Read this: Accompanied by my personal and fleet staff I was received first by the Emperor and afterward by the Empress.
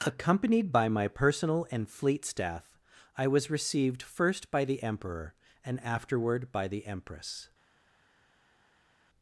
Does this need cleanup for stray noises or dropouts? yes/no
no